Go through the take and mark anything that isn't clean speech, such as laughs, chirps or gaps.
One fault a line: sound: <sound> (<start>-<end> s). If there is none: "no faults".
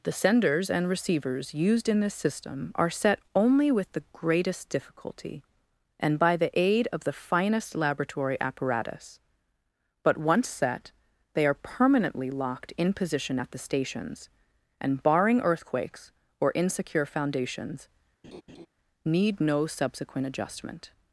sound: laugh (18.2-18.7 s)